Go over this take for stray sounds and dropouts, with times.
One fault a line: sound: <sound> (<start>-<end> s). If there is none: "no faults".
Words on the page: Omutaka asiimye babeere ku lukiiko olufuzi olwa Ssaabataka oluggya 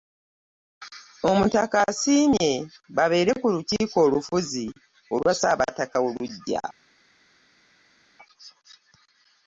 no faults